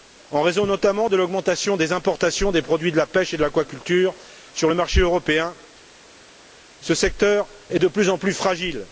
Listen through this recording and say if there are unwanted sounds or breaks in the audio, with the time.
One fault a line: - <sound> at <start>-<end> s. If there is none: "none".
none